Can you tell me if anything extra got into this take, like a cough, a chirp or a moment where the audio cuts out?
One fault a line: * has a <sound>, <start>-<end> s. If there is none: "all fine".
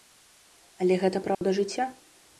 * has a dropout, 1.3-1.4 s